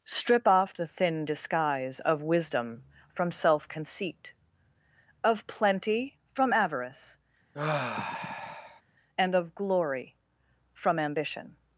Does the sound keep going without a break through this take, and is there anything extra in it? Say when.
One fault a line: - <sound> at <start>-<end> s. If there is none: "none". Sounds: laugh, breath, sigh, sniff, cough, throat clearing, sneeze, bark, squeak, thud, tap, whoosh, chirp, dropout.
- sigh at 7.5-8.8 s